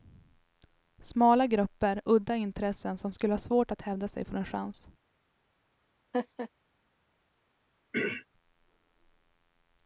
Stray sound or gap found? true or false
true